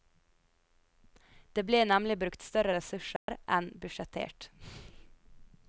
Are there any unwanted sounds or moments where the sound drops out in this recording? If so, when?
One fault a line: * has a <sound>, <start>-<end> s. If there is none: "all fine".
* has a dropout, 3.2-3.3 s